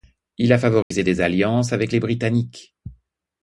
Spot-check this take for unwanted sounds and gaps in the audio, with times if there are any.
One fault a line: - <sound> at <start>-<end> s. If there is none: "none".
- dropout at 0.8-0.9 s